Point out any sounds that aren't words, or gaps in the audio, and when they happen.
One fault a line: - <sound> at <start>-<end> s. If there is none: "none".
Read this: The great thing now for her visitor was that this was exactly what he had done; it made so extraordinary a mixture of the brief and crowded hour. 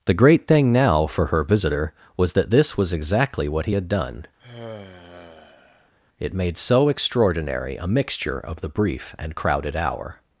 - sigh at 4.4-5.9 s